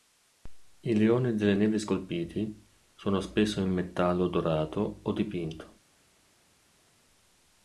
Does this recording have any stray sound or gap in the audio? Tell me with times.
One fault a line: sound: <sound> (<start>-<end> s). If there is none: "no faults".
no faults